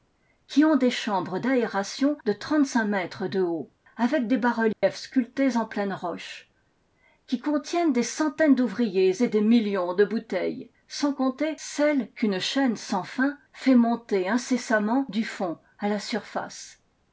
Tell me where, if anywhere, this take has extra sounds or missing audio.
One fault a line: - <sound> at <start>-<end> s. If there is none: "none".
- dropout at 4.7-4.8 s